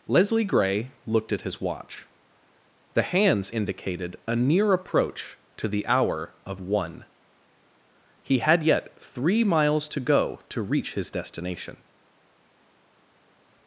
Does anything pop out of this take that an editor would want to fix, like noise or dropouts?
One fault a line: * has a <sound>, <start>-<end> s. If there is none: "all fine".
all fine